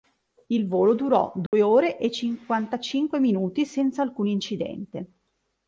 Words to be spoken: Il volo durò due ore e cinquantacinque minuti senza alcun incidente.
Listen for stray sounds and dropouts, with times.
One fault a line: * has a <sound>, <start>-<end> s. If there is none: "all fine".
* has a dropout, 1.5-1.5 s